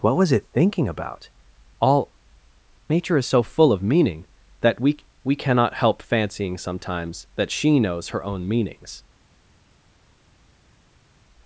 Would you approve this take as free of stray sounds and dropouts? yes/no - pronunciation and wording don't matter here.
yes